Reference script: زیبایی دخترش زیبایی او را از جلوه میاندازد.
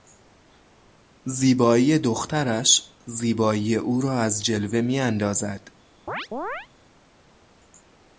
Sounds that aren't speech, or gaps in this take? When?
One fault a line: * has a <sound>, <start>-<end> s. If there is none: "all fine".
* has a chirp, 6.1-6.7 s